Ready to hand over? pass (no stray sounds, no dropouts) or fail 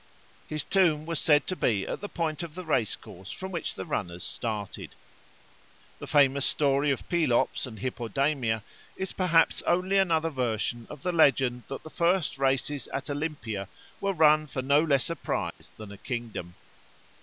fail